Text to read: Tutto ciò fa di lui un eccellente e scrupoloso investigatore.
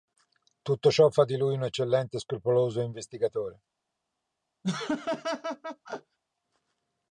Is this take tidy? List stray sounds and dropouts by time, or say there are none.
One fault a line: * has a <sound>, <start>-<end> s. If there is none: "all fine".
* has a laugh, 4.6-6.2 s